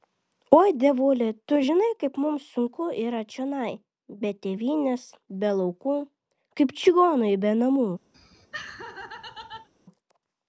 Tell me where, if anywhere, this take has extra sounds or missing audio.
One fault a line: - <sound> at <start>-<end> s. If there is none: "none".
- laugh at 8.1-9.7 s